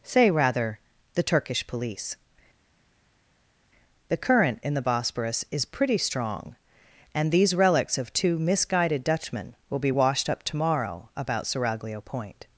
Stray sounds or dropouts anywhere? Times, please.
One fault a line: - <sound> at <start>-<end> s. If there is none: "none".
none